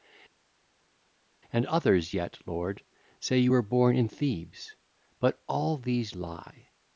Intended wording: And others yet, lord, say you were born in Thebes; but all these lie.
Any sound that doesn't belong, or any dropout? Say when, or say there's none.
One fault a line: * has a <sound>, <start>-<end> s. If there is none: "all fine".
all fine